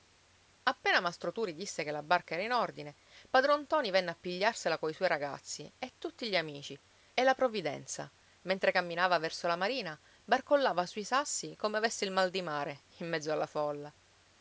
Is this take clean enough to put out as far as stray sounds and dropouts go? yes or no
yes